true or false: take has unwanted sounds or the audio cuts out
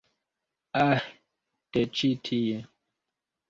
false